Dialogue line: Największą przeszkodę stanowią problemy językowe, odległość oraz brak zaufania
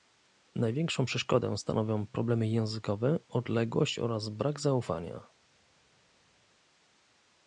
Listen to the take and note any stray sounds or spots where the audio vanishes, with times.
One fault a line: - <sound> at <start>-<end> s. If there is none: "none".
none